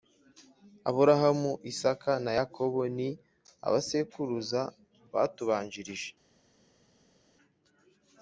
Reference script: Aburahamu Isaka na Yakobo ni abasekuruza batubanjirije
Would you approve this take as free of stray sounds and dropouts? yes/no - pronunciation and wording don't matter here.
yes